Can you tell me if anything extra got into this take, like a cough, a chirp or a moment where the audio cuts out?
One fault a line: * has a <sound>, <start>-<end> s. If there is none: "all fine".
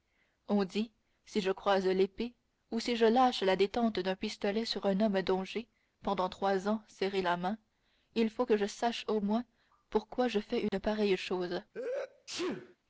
* has a dropout, 10.7-10.7 s
* has a sneeze, 11.7-12.8 s